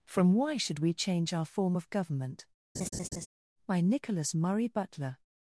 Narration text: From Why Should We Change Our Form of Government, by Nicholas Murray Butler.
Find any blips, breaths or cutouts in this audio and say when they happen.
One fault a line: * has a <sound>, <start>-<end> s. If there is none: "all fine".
* has a laugh, 2.7-3.3 s